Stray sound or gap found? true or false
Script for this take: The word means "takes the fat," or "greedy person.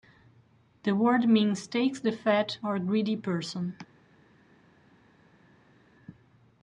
false